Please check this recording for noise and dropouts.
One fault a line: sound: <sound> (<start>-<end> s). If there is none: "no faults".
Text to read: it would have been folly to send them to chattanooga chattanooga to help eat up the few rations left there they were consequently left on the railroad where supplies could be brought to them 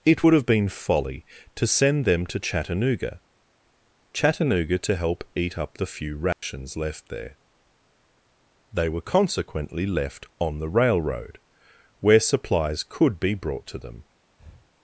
sound: dropout (6.3-6.4 s)
sound: breath (14.4-14.7 s)